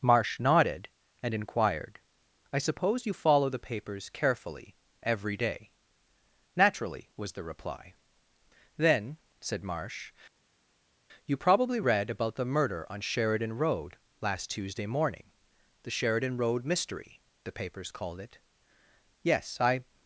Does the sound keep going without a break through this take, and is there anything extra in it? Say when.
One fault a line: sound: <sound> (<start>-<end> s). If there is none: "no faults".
no faults